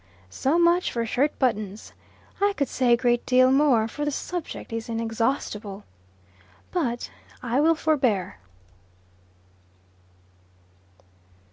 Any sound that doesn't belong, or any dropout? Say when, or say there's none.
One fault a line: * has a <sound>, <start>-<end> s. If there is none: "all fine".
all fine